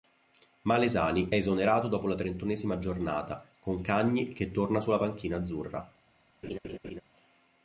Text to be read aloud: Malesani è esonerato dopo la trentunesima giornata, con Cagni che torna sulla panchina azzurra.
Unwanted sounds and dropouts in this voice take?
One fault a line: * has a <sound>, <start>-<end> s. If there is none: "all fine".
* has a laugh, 6.4-7.0 s